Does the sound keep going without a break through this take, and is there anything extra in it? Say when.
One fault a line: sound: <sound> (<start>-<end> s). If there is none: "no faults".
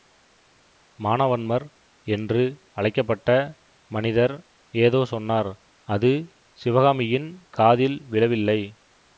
no faults